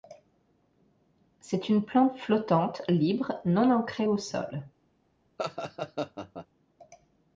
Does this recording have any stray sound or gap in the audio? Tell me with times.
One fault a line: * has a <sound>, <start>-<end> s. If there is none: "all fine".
* has a laugh, 5.4-6.5 s